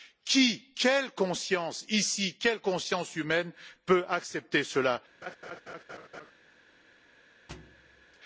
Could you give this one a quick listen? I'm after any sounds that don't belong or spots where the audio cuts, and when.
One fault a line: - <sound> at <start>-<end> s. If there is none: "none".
- laugh at 5.2-6.3 s
- thud at 7.5-8.2 s